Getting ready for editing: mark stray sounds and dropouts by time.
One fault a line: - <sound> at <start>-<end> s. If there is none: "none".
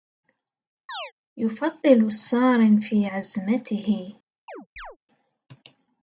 - chirp at 0.9-1.1 s
- chirp at 4.5-5.0 s